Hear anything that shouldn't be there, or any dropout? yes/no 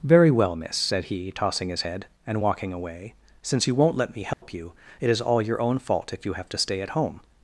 yes